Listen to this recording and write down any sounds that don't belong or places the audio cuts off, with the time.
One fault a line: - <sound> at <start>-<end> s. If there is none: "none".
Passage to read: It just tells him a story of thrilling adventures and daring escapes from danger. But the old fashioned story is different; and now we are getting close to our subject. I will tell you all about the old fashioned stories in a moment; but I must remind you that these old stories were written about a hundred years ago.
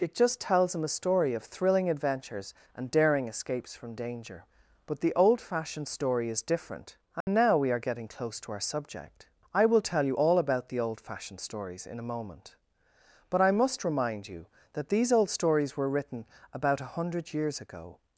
- dropout at 7.2-7.3 s